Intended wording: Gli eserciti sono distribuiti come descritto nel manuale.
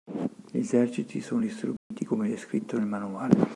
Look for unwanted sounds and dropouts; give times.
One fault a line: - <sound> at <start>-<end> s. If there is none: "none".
- dropout at 1.8-1.9 s